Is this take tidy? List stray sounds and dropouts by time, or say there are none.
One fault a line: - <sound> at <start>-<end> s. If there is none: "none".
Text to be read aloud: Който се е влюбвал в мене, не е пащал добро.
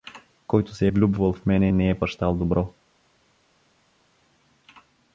none